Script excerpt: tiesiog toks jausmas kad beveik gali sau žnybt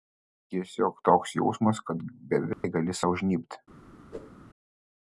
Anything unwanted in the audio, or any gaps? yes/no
yes